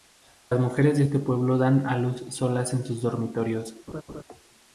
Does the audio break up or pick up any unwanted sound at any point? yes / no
yes